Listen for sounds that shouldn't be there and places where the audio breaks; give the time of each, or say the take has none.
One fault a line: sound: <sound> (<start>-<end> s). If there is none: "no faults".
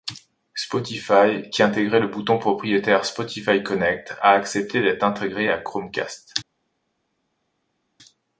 no faults